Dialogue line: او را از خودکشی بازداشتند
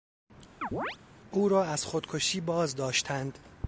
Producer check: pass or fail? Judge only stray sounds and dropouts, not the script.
fail